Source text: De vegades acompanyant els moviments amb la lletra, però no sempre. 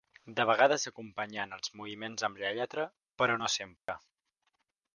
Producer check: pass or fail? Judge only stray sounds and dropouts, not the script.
fail